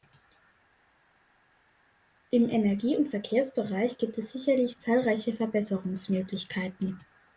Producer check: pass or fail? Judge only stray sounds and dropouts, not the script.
pass